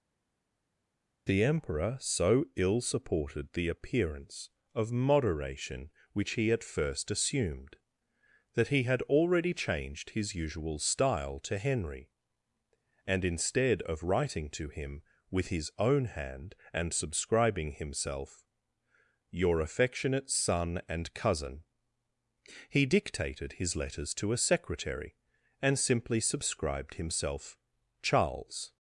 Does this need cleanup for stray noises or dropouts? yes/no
no